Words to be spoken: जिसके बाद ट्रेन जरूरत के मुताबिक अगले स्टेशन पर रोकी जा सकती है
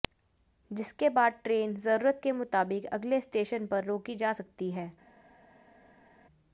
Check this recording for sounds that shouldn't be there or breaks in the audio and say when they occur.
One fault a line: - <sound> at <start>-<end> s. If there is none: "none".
none